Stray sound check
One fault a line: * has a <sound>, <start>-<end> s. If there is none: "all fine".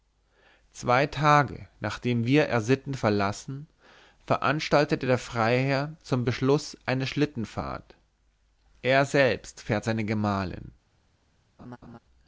* has a laugh, 11.6-12.0 s